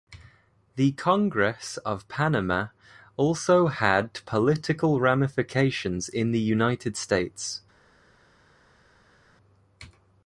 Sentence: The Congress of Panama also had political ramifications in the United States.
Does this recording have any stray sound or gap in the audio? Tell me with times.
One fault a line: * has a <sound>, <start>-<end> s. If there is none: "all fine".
all fine